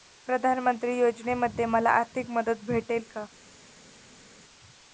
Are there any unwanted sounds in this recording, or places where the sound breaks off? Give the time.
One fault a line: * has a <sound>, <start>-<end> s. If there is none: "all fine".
all fine